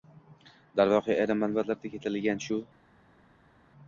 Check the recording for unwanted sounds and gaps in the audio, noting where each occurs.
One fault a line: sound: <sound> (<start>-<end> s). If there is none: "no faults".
no faults